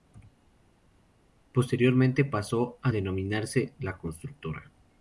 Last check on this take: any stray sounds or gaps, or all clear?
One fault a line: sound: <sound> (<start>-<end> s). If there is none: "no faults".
no faults